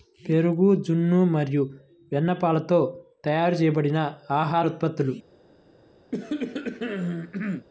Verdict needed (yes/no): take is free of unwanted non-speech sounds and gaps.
no